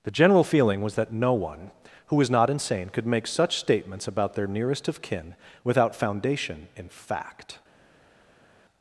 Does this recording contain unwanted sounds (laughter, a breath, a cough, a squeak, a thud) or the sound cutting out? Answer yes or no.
no